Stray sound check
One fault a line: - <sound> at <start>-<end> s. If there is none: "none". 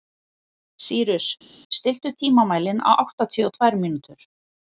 none